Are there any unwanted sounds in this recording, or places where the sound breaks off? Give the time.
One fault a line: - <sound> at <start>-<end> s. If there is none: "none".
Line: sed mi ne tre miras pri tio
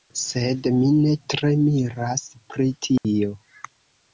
- dropout at 3.0-3.0 s